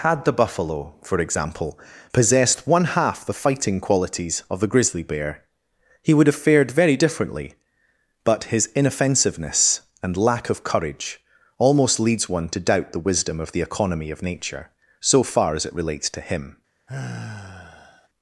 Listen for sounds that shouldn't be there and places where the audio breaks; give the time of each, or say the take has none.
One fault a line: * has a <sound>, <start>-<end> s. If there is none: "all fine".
* has a sigh, 16.9-18.1 s